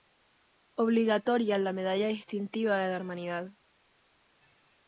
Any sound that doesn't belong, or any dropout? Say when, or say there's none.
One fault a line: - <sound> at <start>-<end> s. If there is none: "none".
none